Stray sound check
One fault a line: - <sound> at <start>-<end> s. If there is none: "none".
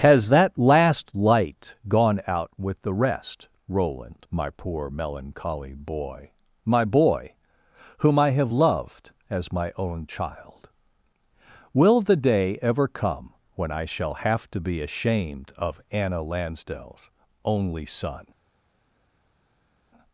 none